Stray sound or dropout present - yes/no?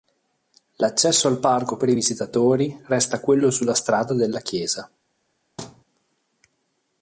yes